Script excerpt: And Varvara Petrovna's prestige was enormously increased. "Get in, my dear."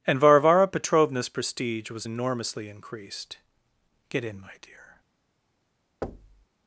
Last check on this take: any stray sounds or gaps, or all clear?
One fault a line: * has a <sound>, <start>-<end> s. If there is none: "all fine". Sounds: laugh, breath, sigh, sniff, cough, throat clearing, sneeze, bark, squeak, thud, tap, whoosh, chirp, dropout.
* has a thud, 6.0-6.5 s